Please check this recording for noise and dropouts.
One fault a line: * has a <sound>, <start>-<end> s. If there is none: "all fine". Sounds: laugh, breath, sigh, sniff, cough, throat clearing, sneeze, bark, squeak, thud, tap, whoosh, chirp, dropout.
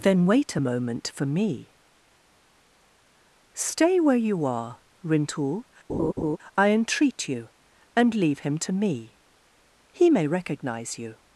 * has a laugh, 5.9-6.4 s